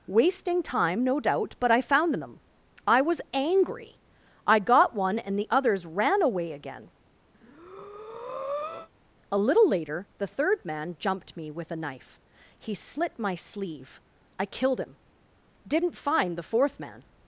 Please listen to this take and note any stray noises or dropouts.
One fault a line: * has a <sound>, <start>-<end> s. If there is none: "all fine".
* has a breath, 7.3-8.9 s